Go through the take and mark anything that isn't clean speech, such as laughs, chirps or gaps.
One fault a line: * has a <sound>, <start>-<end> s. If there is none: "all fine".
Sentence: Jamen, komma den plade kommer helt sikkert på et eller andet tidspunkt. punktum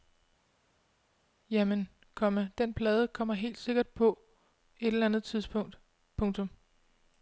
all fine